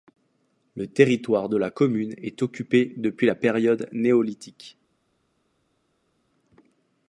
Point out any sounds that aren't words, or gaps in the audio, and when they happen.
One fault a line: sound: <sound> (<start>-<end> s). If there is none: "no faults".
no faults